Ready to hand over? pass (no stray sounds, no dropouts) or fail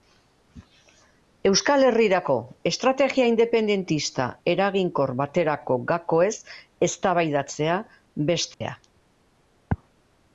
fail